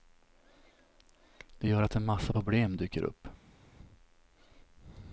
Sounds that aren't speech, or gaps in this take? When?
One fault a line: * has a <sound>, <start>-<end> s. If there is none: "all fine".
all fine